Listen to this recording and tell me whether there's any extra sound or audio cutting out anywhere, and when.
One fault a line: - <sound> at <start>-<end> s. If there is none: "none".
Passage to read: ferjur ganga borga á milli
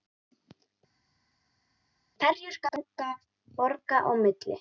none